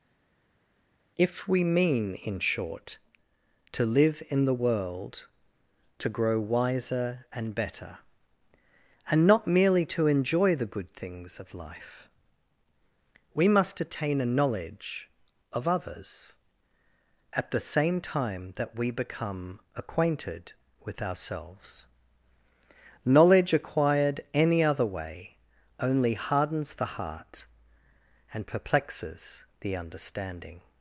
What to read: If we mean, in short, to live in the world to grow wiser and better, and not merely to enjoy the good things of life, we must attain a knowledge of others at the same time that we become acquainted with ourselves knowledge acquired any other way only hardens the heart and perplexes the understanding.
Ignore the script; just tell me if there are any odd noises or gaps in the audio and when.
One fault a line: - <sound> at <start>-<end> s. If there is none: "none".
none